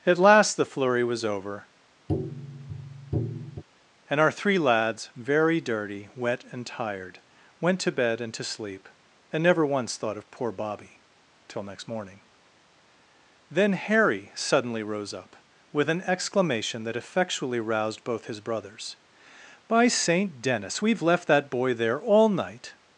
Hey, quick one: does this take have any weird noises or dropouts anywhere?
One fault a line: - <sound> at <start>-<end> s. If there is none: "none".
- tap at 2.1-3.6 s